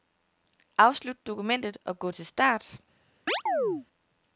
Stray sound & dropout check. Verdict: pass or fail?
fail